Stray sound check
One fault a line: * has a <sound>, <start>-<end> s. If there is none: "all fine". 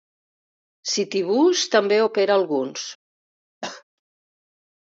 * has a cough, 3.6-3.8 s